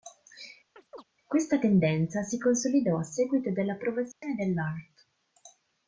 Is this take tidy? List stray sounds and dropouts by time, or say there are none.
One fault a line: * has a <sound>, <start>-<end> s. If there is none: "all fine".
* has a chirp, 0.8-1.0 s
* has a dropout, 4.1-4.2 s